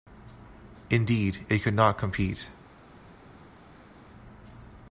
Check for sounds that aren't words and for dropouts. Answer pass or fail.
pass